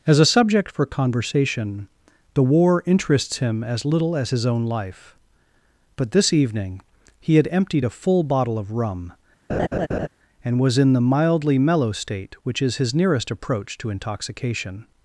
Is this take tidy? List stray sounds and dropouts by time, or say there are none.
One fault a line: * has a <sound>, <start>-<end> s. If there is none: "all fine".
* has a laugh, 9.5-10.1 s